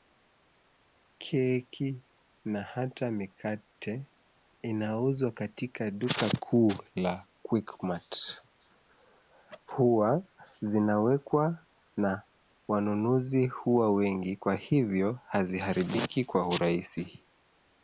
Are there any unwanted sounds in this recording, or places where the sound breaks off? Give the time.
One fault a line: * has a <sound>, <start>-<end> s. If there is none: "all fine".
all fine